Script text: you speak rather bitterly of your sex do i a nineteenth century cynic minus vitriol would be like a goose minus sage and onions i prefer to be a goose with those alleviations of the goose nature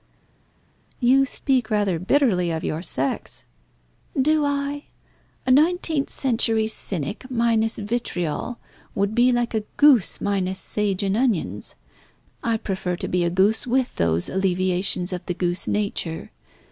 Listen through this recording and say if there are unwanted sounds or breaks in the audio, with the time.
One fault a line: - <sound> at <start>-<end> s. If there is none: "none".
none